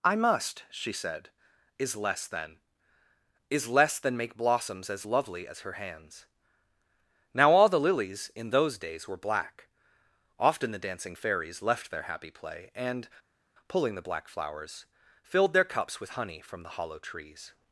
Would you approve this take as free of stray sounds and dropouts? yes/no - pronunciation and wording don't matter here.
yes